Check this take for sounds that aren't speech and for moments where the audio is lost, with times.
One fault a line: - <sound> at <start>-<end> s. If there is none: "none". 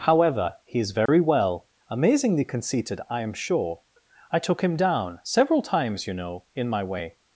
- dropout at 1.1-1.1 s